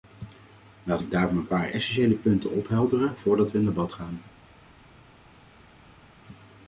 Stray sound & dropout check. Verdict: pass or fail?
pass